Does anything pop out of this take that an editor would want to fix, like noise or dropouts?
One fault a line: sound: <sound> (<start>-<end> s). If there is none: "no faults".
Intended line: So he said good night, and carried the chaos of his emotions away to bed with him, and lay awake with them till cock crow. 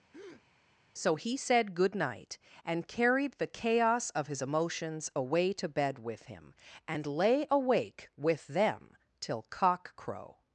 sound: breath (0.1-0.4 s)